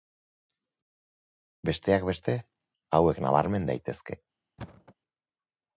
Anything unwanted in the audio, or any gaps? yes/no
yes